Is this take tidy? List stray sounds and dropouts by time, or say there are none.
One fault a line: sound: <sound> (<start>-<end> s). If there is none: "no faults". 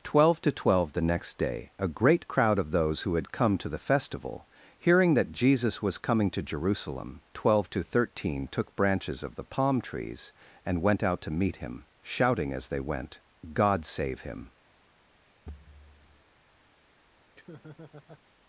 sound: thud (15.5-16.2 s)
sound: laugh (17.3-18.2 s)